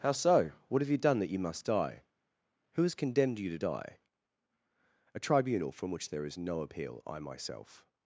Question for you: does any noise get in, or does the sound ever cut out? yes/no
no